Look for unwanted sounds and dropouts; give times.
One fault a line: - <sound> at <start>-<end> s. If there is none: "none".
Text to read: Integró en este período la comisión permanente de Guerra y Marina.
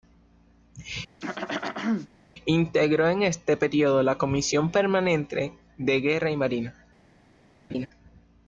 - throat clearing at 1.2-2.1 s
- laugh at 7.7-7.9 s